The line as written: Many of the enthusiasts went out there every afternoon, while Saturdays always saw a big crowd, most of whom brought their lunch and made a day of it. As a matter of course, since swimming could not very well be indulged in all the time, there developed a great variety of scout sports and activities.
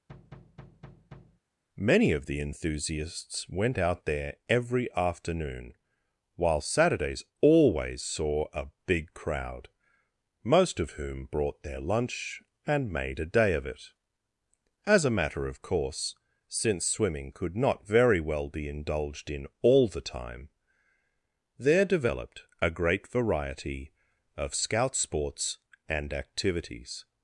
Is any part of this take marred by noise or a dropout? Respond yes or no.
yes